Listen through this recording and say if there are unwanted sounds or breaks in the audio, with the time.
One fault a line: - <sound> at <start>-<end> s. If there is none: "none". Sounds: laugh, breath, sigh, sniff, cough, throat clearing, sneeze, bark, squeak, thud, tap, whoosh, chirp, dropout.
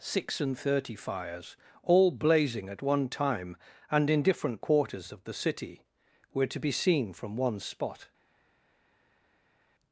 none